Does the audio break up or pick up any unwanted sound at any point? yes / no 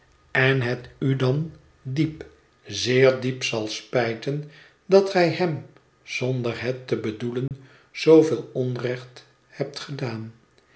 yes